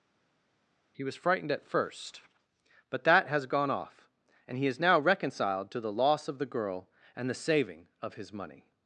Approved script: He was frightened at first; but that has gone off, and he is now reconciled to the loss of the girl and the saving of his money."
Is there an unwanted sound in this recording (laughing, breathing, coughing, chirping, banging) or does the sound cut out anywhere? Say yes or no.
no